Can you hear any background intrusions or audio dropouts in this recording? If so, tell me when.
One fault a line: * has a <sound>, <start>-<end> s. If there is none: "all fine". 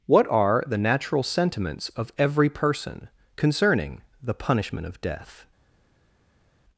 all fine